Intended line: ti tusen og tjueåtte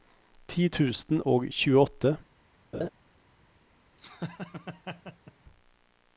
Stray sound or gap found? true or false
true